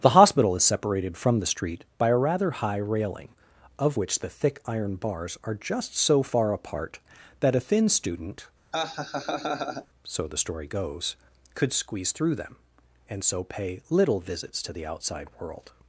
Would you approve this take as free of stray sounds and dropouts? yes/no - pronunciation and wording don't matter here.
no